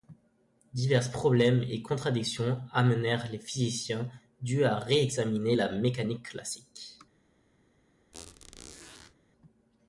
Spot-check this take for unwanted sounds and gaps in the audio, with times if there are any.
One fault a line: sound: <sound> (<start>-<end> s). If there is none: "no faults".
sound: squeak (8.1-9.1 s)